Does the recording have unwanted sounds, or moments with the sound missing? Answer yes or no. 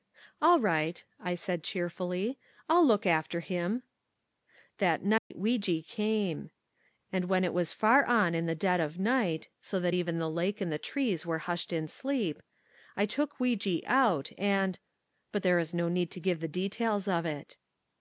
yes